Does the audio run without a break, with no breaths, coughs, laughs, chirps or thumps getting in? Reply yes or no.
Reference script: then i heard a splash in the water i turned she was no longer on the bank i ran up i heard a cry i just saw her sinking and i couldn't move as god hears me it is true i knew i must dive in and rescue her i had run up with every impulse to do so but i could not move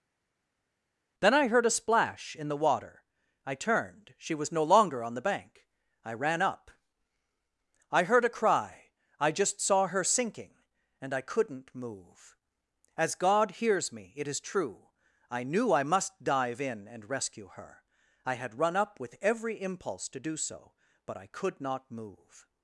yes